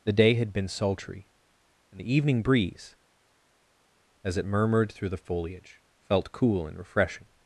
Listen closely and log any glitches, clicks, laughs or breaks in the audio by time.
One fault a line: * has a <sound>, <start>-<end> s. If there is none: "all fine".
all fine